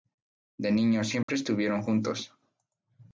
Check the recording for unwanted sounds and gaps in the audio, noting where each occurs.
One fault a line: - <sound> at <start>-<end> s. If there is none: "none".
- dropout at 1.2-1.3 s